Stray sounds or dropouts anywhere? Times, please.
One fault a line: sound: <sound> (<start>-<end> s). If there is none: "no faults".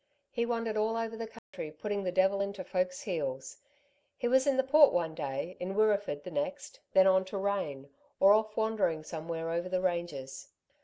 sound: dropout (1.4-1.5 s)